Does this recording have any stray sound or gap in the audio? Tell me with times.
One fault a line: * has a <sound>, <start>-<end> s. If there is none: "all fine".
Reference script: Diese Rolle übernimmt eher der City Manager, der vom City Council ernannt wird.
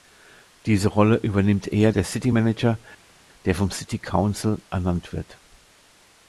all fine